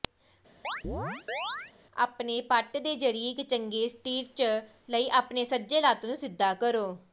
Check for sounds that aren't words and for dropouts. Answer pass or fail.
fail